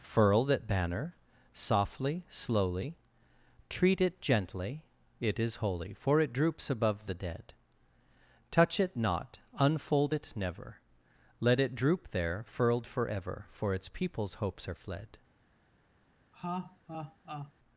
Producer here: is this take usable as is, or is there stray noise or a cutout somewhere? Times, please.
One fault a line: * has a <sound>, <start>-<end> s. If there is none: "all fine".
* has a laugh, 16.3-17.5 s